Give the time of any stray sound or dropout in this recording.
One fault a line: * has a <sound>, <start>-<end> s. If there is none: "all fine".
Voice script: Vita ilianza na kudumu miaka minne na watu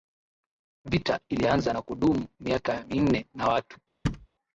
* has a thud, 4.0-4.3 s